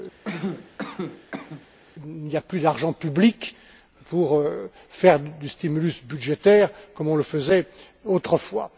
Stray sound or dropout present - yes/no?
yes